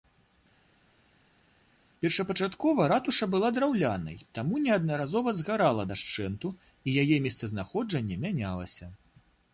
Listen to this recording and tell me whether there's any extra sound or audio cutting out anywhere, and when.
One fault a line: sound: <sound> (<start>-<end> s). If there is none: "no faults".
no faults